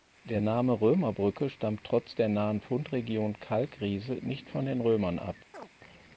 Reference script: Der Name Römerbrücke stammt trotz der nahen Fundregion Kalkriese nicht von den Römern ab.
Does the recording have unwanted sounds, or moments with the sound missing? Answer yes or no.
yes